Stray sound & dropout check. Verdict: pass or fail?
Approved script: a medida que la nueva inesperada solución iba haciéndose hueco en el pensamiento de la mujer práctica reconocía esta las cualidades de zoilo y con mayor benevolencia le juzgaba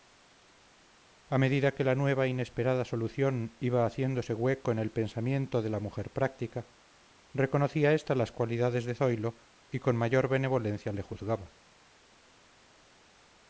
pass